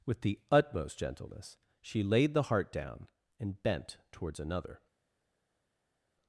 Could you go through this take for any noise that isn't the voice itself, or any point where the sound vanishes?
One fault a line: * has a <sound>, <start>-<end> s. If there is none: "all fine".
all fine